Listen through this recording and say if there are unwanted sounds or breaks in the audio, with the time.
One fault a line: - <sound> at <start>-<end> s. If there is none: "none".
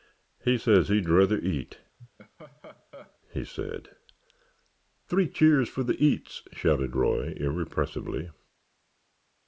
- laugh at 2.0-3.2 s